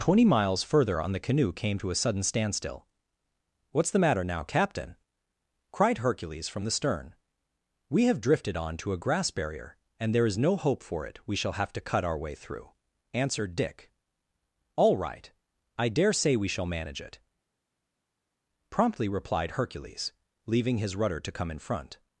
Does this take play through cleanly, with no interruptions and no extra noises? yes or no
yes